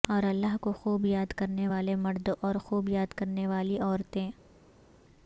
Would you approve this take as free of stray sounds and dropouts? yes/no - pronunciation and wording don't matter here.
yes